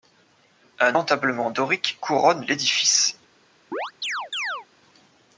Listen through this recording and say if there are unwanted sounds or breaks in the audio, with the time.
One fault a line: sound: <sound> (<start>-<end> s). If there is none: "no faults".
sound: chirp (3.7-4.7 s)